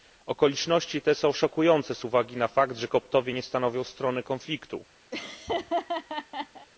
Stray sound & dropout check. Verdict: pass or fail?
fail